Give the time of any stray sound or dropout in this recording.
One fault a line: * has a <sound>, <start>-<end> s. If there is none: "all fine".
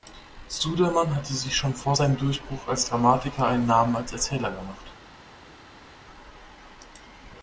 all fine